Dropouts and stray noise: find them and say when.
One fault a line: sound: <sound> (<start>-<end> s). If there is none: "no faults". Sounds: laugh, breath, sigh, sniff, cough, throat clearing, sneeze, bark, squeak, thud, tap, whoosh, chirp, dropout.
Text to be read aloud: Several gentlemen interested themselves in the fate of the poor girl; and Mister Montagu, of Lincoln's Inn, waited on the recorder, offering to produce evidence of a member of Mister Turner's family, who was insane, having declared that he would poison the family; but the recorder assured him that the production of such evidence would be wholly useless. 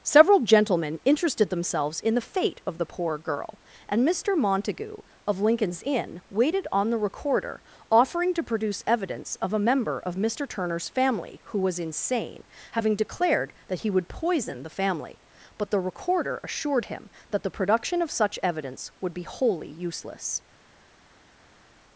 no faults